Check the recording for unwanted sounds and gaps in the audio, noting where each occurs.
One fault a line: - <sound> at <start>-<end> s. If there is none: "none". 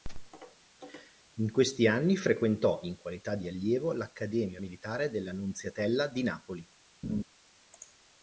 - laugh at 7.0-7.2 s